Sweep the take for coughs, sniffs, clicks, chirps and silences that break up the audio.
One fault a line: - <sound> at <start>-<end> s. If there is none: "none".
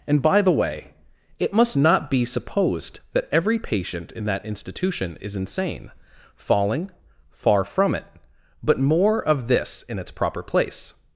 none